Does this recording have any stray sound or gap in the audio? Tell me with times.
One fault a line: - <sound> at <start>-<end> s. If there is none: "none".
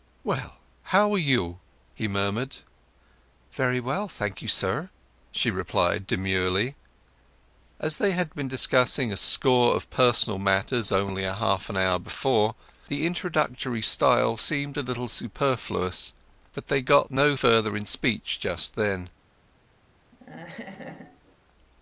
- laugh at 20.1-21.4 s